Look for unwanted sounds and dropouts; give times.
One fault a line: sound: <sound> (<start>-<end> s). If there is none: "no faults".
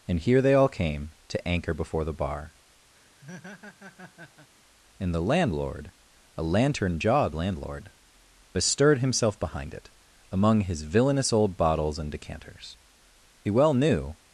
sound: laugh (2.9-4.5 s)